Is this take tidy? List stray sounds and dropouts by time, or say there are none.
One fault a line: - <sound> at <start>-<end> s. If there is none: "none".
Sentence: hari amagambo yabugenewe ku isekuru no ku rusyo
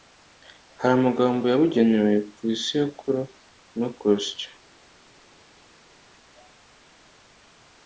none